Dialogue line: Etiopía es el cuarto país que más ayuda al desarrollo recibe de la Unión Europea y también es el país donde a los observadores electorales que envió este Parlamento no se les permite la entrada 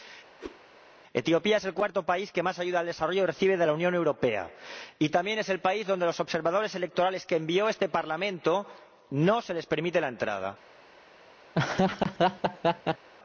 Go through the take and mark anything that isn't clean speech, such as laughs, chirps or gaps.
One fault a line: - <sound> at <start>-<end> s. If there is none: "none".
- whoosh at 0.4-0.6 s
- laugh at 11.5-13.1 s